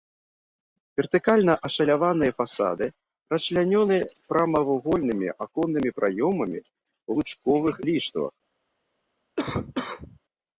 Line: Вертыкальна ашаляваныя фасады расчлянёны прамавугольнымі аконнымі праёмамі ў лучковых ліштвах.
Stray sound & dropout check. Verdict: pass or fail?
fail